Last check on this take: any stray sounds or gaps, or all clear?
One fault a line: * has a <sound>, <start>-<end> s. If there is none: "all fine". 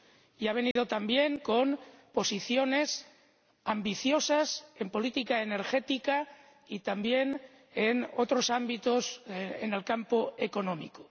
* has a dropout, 0.7-0.8 s